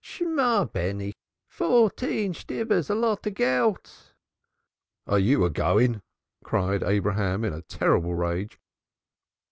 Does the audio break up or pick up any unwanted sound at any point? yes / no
no